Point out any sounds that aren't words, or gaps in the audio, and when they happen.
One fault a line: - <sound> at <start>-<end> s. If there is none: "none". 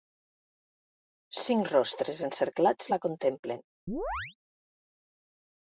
- chirp at 3.9-4.4 s